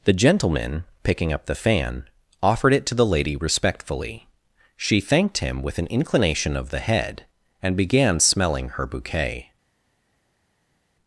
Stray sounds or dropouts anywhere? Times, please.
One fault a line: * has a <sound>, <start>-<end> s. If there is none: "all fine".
all fine